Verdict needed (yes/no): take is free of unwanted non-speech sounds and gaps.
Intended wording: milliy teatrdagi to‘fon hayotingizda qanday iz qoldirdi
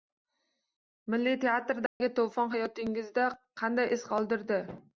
no